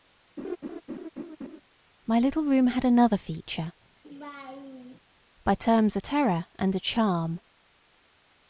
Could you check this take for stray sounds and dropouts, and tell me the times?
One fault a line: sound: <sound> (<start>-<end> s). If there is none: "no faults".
sound: laugh (0.4-1.6 s)
sound: laugh (4.0-5.0 s)